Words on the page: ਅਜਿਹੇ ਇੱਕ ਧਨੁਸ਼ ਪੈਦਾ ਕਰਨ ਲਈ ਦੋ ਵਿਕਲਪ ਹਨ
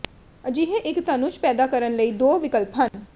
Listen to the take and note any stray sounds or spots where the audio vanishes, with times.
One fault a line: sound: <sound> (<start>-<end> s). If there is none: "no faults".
sound: dropout (2.9-2.9 s)